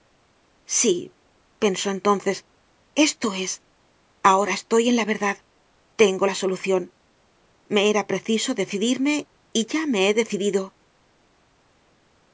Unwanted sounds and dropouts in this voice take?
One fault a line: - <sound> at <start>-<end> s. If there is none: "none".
none